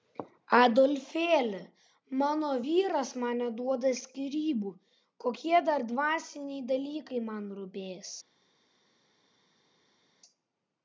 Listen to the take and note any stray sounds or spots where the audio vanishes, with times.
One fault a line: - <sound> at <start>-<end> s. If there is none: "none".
none